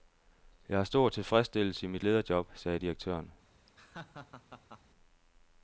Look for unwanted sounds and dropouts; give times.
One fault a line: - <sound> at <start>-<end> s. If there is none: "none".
- laugh at 3.7-4.8 s